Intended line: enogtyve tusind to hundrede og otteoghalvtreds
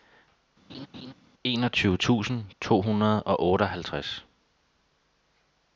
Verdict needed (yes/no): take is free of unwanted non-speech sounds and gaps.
no